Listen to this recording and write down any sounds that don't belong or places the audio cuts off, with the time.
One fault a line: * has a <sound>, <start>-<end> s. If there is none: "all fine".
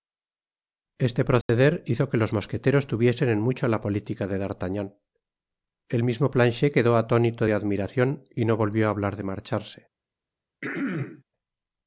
* has a dropout, 1.4-1.5 s
* has a throat clearing, 10.6-11.2 s